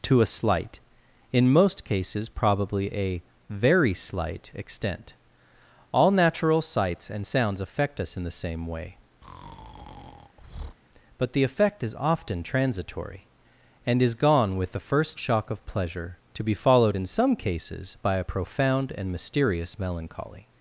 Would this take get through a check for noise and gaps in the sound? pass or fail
fail